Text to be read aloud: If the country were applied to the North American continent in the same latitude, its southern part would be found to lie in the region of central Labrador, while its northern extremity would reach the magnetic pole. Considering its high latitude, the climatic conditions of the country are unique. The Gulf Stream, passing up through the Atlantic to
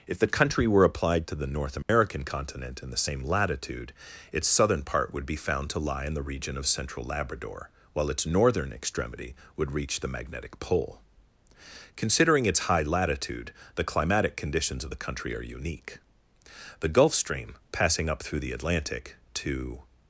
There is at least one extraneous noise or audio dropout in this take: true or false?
true